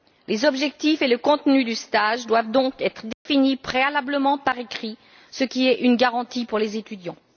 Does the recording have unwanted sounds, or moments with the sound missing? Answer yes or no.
yes